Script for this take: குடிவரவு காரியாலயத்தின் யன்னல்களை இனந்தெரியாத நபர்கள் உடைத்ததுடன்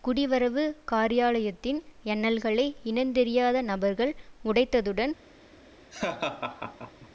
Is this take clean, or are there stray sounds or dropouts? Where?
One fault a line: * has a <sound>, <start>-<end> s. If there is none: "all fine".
* has a laugh, 5.9-7.1 s